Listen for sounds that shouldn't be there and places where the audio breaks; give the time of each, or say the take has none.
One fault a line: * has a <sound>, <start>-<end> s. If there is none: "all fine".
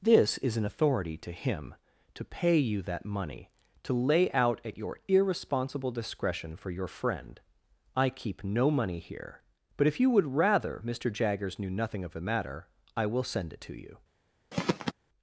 * has a throat clearing, 14.5-14.9 s